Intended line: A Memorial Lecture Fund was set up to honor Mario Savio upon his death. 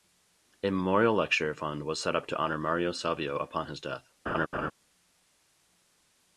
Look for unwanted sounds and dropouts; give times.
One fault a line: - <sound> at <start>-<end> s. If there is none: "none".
- laugh at 4.3-4.7 s